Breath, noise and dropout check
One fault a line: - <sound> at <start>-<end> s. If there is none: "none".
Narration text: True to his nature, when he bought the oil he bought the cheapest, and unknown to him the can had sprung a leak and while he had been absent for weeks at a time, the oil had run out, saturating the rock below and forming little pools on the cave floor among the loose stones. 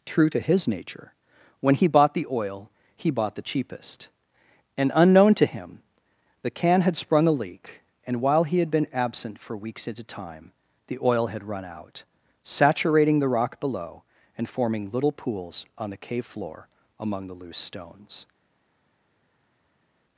none